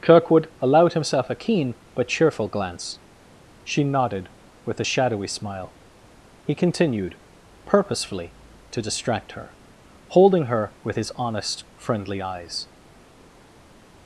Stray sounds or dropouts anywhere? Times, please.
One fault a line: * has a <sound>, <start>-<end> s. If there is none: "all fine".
all fine